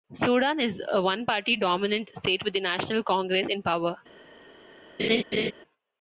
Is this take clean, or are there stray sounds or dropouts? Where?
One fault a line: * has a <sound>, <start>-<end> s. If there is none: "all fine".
* has a laugh, 5.0-5.5 s